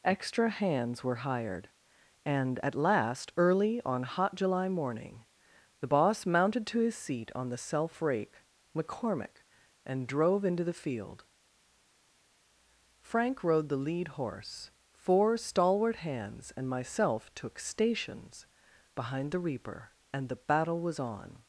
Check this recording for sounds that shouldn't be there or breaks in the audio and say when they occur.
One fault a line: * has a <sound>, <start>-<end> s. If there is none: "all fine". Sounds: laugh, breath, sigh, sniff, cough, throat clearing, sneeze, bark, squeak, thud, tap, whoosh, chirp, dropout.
all fine